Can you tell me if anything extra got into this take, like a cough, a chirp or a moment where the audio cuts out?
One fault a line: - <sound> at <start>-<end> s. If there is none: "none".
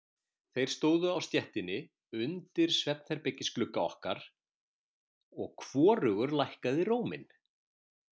none